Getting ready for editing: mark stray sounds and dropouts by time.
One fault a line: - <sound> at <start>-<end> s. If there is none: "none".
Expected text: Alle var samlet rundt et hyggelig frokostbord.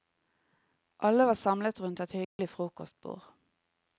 - dropout at 2.2-2.4 s